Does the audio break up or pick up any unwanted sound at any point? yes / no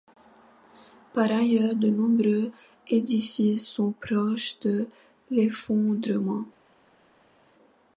no